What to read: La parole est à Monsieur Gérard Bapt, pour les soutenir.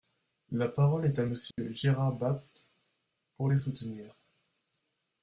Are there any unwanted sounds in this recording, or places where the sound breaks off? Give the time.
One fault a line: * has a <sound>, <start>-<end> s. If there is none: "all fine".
* has a dropout, 1.5-1.6 s